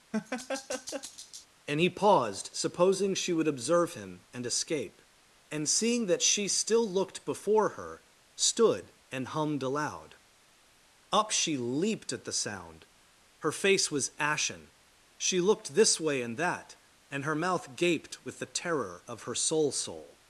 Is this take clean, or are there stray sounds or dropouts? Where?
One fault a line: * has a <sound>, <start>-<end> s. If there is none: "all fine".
* has a laugh, 0.1-1.5 s